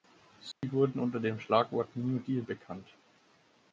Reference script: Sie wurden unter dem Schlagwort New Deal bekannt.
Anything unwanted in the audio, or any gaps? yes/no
yes